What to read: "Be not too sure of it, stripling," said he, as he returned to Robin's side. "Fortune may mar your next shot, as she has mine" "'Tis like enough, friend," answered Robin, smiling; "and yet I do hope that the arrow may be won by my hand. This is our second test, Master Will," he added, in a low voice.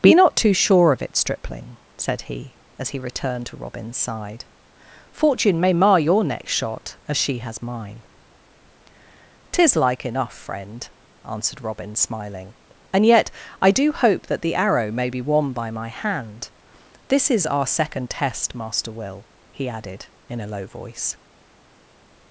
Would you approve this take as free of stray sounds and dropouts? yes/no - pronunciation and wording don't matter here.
yes